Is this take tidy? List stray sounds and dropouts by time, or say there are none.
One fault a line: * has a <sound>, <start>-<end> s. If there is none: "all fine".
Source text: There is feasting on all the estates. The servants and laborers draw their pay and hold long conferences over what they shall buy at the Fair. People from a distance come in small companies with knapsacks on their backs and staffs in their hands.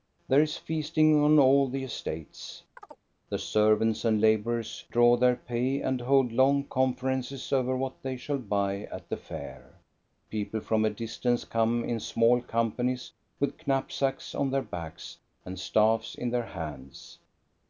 * has a chirp, 2.8-3.0 s